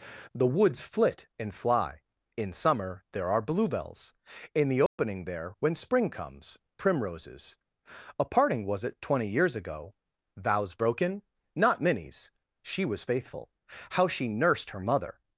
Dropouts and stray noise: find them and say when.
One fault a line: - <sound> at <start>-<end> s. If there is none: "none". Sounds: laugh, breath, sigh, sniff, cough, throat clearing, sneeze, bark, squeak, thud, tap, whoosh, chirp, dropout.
- dropout at 4.9-5.0 s